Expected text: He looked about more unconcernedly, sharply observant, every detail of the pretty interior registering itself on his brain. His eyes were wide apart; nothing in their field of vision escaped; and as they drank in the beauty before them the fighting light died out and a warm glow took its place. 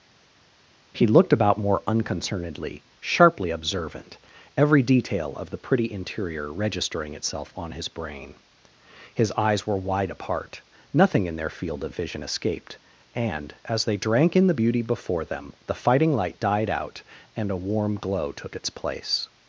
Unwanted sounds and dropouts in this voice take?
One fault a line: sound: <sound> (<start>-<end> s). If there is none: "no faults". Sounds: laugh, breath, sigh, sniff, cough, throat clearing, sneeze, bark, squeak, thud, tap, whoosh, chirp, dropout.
no faults